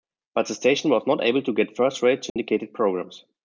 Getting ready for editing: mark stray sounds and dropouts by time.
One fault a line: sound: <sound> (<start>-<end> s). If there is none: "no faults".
sound: dropout (2.3-2.4 s)